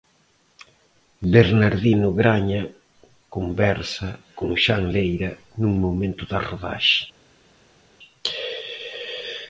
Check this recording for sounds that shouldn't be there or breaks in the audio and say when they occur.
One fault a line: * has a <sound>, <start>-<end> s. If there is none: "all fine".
all fine